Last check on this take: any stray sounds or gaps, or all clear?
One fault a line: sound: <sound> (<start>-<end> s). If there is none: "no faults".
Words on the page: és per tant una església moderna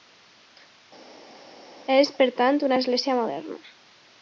no faults